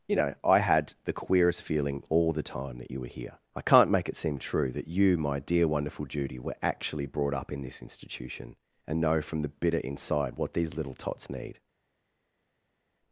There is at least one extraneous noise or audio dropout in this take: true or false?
false